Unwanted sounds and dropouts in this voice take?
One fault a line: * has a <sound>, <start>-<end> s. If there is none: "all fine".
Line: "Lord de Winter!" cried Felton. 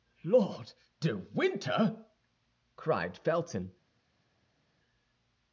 all fine